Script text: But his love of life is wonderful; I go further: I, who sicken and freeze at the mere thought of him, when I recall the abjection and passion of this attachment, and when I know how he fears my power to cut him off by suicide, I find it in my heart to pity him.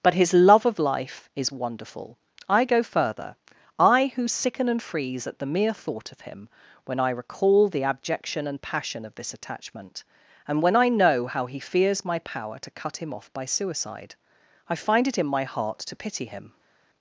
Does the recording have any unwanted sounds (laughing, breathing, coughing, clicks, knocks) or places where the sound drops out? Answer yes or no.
no